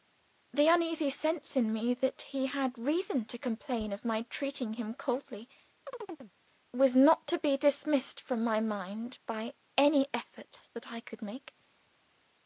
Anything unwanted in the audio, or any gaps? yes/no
yes